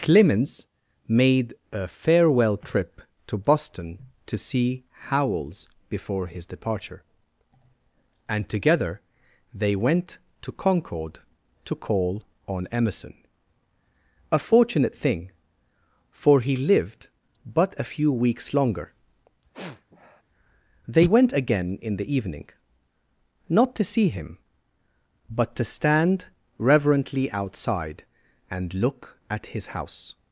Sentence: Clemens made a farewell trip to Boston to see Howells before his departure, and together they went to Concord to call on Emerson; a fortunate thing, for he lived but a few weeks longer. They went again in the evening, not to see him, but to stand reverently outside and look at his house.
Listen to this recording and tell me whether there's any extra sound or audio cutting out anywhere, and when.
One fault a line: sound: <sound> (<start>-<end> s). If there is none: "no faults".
sound: sniff (19.5-20.2 s)